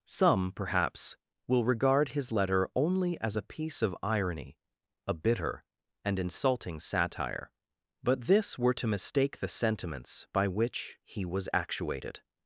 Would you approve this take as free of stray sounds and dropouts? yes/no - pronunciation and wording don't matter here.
yes